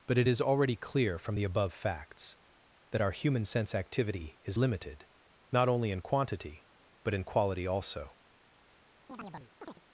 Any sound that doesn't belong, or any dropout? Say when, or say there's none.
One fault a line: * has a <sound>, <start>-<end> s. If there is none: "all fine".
* has a chirp, 9.1-9.8 s